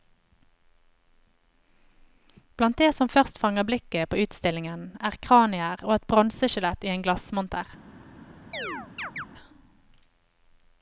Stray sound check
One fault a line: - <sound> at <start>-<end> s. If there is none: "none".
- chirp at 8.5-9.3 s